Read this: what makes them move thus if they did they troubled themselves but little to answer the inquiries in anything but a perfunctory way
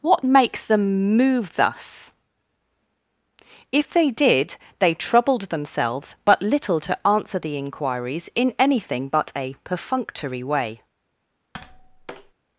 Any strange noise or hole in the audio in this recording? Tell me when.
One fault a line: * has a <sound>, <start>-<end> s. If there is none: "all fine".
* has a tap, 11.5-12.3 s